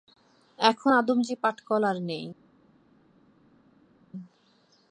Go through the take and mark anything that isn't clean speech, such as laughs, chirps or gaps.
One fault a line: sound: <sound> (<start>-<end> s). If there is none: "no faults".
no faults